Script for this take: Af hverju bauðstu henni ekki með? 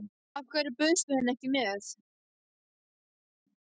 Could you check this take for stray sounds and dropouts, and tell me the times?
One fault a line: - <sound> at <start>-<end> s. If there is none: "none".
none